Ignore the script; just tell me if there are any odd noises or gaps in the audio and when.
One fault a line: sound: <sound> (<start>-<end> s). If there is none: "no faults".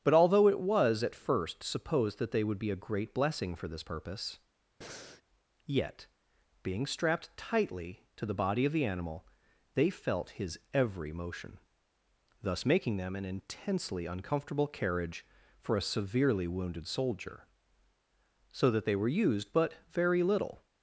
sound: breath (4.8-5.2 s)